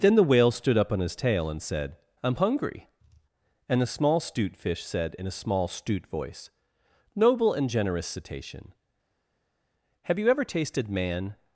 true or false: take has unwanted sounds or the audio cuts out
false